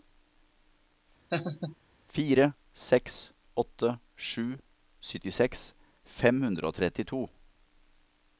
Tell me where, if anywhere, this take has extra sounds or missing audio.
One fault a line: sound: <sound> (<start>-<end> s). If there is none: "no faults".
sound: laugh (1.3-1.8 s)